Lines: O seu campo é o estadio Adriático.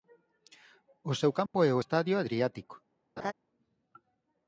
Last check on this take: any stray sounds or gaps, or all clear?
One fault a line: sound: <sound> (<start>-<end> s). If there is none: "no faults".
sound: dropout (1.5-1.5 s)
sound: laugh (3.2-3.3 s)